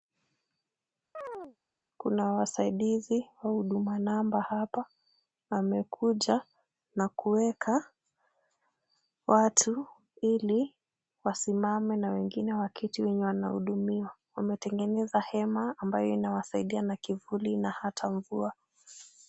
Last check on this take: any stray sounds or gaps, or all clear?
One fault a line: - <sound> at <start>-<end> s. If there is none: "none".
- chirp at 1.1-1.6 s